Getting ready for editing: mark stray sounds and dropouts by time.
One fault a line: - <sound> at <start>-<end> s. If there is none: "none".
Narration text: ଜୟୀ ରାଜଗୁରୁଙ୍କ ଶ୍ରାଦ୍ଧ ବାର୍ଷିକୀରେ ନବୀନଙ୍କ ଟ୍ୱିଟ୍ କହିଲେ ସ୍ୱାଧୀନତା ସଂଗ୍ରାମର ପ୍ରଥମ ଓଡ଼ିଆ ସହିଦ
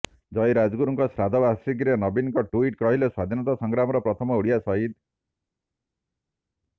none